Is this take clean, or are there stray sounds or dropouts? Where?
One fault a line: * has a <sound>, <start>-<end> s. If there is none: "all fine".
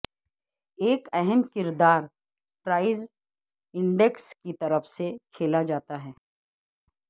all fine